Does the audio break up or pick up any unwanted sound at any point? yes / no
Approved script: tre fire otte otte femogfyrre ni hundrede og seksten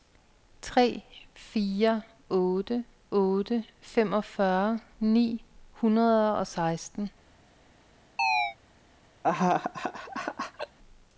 yes